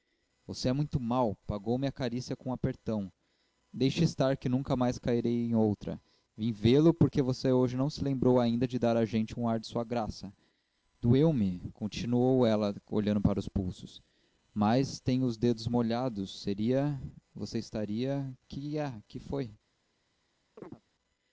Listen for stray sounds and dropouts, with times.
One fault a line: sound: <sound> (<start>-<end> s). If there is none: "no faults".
sound: chirp (20.6-20.8 s)